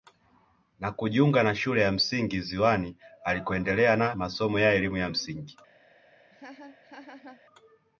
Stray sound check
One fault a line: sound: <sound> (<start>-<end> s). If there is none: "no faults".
sound: laugh (6.3-7.4 s)